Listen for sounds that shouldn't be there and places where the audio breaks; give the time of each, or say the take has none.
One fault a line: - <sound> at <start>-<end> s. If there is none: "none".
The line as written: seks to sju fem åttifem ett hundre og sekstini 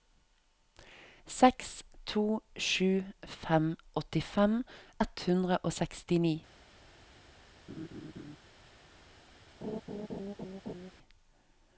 - laugh at 7.7-8.4 s
- laugh at 9.6-10.9 s